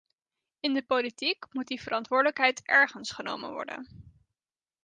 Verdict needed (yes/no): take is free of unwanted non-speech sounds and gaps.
yes